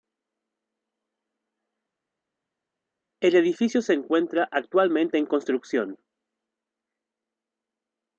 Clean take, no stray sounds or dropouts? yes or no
yes